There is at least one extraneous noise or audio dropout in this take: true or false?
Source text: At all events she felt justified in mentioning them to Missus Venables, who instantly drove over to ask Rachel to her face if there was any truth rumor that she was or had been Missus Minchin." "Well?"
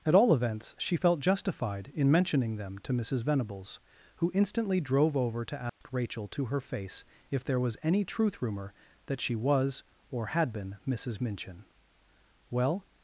true